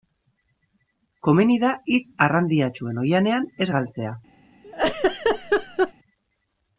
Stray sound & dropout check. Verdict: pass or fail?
fail